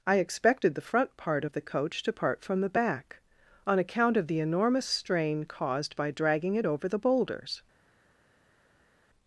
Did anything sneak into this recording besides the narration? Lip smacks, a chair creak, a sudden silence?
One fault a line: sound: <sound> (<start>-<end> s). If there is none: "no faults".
no faults